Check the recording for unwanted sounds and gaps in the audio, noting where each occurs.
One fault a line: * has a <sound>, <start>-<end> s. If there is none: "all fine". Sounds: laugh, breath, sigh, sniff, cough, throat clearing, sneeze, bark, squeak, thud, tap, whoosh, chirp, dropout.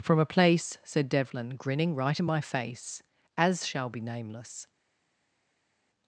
all fine